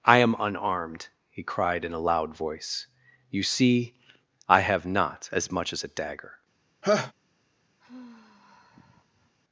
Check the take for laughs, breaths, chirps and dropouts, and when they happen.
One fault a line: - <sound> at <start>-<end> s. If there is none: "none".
- laugh at 6.8-7.1 s
- sigh at 7.8-9.3 s